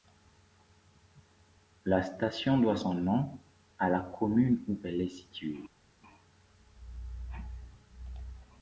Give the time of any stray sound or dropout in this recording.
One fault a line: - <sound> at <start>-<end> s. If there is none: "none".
none